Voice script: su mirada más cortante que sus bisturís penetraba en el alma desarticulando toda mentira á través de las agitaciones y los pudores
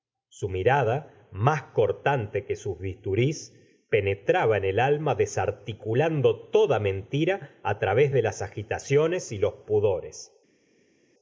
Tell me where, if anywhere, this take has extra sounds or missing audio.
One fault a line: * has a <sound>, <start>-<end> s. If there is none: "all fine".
all fine